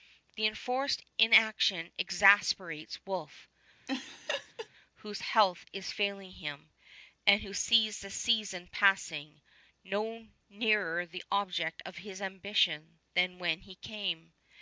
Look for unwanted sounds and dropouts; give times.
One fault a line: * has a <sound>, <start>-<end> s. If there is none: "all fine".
* has a laugh, 3.9-4.7 s